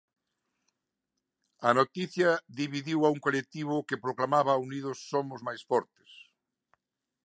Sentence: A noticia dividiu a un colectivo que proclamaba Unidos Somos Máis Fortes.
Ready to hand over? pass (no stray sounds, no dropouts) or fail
pass